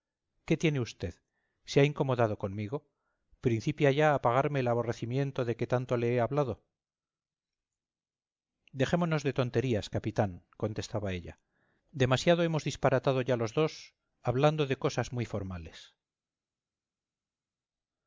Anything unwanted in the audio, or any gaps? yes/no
no